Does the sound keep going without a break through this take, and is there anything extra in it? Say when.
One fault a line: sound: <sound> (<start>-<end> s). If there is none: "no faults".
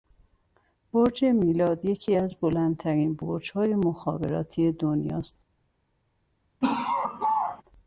sound: laugh (6.6-7.6 s)